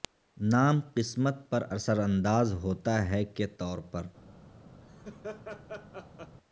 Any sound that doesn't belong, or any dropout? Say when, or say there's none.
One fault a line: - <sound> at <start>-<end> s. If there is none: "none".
- laugh at 4.8-6.4 s